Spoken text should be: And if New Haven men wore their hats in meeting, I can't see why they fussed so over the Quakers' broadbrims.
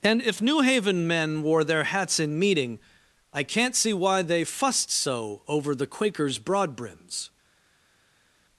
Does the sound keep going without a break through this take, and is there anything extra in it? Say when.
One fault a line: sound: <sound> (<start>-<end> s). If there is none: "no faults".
no faults